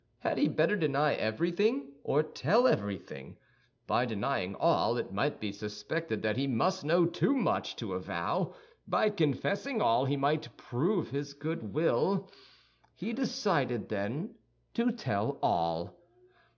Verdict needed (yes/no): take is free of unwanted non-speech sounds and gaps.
yes